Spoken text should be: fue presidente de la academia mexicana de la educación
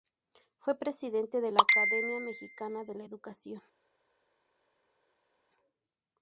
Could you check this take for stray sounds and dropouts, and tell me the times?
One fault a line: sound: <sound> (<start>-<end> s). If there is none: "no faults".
no faults